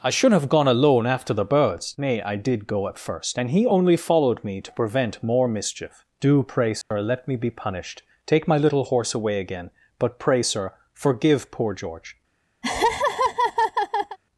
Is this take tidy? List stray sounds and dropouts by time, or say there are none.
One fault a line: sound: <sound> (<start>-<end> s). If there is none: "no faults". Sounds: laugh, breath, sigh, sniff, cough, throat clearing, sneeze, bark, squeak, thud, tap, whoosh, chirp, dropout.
sound: dropout (6.8-6.9 s)
sound: laugh (12.6-14.2 s)